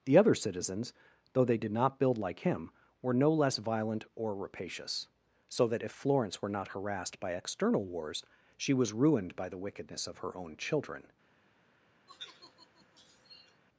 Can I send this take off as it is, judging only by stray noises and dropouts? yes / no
no